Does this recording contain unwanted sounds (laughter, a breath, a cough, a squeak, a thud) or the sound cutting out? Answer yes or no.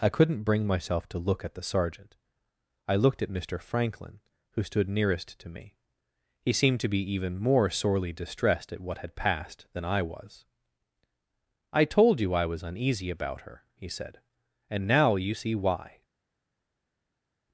no